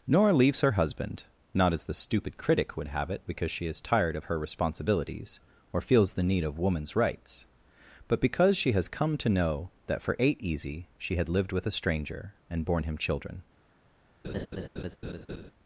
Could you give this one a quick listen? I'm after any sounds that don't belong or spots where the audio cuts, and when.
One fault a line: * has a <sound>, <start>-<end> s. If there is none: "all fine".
* has a laugh, 14.2-15.5 s